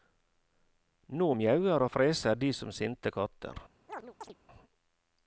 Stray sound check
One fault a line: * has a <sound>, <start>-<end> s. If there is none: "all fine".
* has a chirp, 3.9-4.3 s